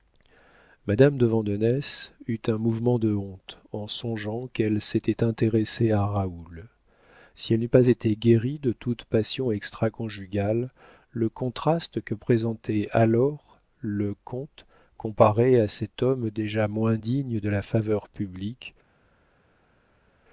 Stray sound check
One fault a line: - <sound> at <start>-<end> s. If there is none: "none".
none